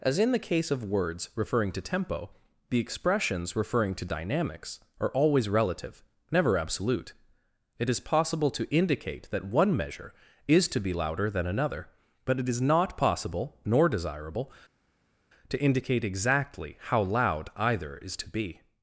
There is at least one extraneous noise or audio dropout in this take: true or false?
false